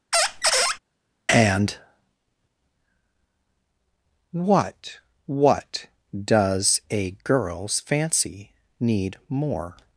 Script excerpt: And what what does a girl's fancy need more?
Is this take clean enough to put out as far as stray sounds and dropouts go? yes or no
no